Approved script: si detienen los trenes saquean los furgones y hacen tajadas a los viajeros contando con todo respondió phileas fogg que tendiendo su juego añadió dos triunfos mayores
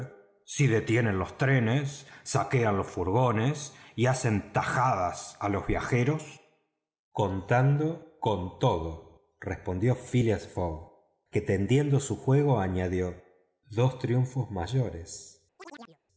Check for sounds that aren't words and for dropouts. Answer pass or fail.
fail